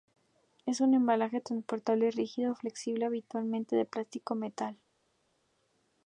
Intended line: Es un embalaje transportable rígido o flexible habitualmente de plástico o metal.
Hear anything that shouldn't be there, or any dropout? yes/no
no